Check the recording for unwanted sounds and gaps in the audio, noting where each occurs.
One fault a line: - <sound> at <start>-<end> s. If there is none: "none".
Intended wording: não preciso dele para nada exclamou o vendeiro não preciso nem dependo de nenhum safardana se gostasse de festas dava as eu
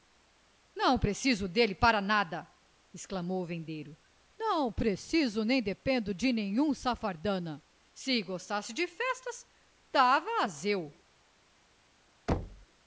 - thud at 12.3-12.7 s